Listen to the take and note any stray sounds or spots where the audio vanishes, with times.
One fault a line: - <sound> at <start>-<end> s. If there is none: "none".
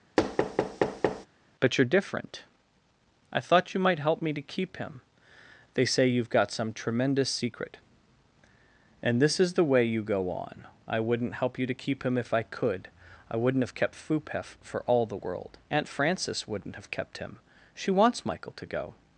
- thud at 0.2-1.3 s